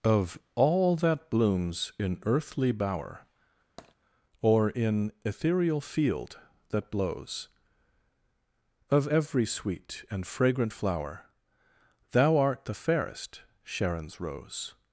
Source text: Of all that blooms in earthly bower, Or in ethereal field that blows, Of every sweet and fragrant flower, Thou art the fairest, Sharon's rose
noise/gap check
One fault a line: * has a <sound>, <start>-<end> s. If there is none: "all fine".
* has a tap, 3.8-4.0 s